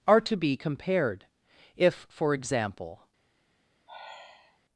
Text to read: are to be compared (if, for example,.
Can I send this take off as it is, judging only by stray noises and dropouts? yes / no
no